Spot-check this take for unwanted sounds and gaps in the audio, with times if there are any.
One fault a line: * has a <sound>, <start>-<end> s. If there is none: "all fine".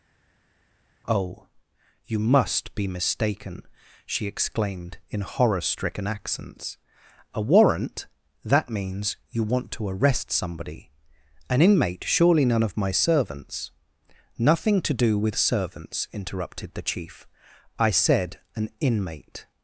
all fine